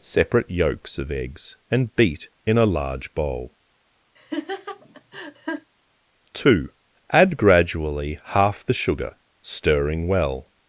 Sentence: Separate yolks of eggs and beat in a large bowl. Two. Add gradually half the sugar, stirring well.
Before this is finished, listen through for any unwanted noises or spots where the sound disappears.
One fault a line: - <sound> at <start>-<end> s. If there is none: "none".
- laugh at 4.2-5.7 s